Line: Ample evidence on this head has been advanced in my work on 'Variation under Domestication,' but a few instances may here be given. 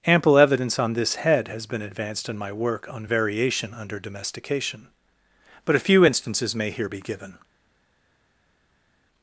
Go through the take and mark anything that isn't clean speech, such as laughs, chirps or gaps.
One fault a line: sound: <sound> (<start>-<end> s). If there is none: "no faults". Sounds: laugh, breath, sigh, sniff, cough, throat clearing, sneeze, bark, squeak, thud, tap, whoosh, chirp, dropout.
no faults